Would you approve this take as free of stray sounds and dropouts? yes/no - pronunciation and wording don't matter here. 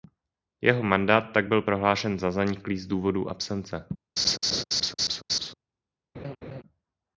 no